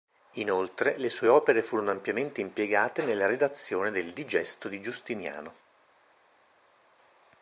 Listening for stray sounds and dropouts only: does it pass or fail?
pass